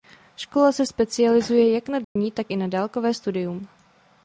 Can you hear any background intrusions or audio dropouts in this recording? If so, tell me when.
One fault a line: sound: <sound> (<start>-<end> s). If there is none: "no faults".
sound: dropout (2.0-2.2 s)